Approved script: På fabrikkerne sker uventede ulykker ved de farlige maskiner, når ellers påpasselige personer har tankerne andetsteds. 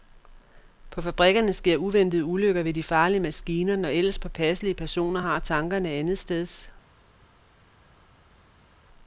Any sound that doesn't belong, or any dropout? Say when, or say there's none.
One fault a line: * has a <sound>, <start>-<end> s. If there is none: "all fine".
all fine